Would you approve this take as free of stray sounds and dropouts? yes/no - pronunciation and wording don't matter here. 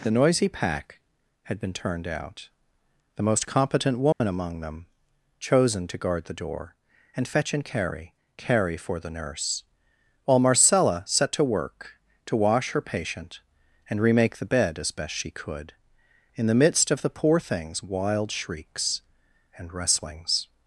no